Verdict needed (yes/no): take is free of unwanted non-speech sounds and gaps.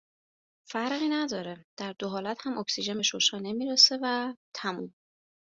yes